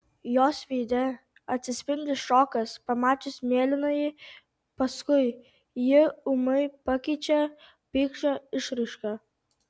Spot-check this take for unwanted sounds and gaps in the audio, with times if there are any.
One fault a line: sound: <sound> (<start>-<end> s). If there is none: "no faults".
no faults